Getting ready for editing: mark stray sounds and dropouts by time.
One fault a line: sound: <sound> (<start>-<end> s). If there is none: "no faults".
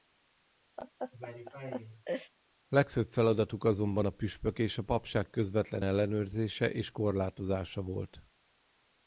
sound: laugh (0.8-2.3 s)